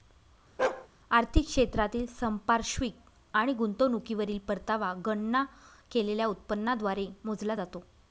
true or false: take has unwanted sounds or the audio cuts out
true